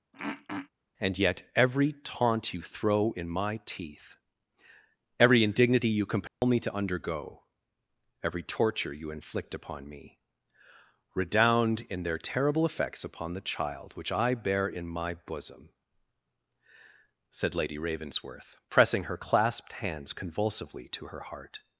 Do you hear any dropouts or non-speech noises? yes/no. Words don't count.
yes